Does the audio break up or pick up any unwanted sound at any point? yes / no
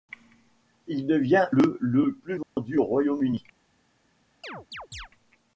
yes